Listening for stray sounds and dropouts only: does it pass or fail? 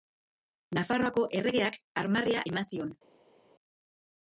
pass